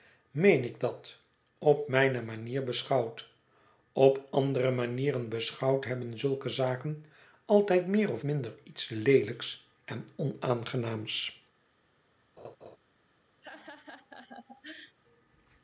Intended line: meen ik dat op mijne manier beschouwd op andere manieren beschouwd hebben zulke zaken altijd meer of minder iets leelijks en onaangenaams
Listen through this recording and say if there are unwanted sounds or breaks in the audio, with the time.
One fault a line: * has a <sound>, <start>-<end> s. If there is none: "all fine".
* has a laugh, 12.4-12.8 s
* has a laugh, 13.4-15.0 s